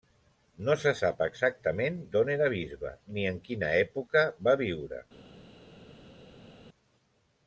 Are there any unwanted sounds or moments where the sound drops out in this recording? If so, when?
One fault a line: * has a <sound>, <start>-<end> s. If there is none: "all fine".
all fine